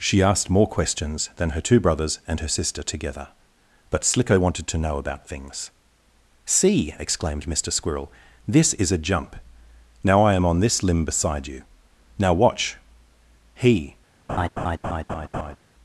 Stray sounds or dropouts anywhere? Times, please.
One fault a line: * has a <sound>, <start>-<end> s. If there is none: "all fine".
* has a laugh, 14.3-15.6 s